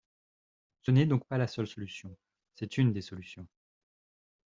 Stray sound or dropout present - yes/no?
no